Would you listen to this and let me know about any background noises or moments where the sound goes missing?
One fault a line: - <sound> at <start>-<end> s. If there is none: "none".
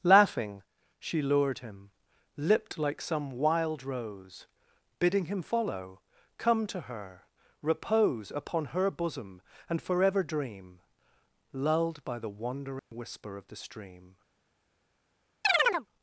- dropout at 12.8-12.9 s
- chirp at 15.4-15.9 s